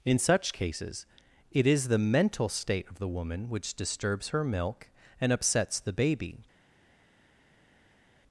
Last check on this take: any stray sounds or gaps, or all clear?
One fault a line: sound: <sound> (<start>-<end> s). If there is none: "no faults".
no faults